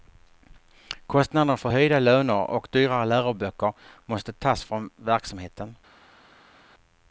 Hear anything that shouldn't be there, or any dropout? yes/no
no